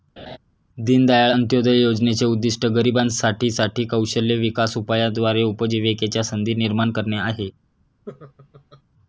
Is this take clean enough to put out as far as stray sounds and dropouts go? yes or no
no